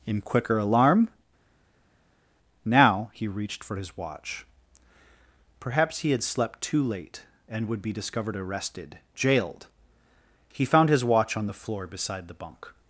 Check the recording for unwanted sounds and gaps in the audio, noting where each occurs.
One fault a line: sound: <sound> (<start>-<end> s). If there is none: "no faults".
no faults